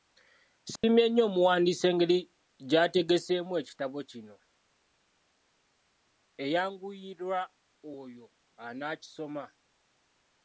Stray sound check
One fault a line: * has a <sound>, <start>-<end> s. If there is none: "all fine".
* has a dropout, 0.8-0.8 s